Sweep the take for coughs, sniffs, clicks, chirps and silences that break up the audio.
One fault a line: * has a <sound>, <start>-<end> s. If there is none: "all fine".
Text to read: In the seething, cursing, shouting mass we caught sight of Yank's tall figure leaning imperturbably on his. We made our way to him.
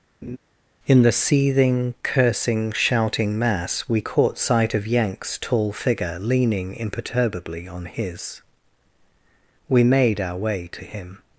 * has a laugh, 0.2-0.4 s